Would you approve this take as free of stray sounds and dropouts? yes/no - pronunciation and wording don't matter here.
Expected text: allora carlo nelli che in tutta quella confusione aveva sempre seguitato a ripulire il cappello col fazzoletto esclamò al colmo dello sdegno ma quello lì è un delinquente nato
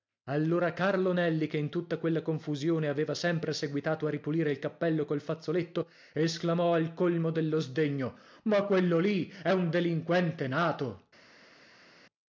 yes